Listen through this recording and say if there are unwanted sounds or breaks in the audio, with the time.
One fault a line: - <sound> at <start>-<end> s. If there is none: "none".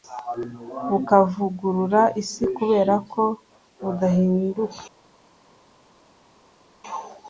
none